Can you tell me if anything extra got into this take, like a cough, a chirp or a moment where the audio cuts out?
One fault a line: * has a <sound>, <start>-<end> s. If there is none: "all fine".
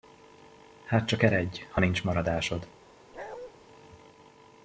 * has a bark, 3.1-3.5 s